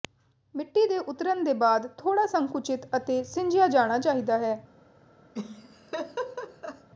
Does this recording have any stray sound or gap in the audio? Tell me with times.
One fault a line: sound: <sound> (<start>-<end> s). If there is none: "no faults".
sound: laugh (5.3-6.9 s)